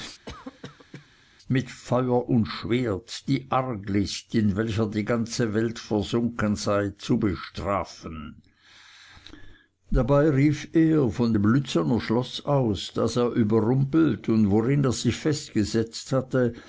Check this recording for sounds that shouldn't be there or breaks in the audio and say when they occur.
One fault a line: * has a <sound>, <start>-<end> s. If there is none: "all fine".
* has a cough, 0.3-1.1 s